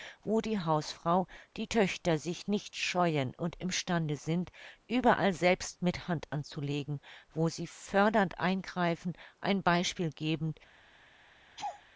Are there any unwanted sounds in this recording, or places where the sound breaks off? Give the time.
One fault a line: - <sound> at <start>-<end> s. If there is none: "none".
- laugh at 11.6-11.8 s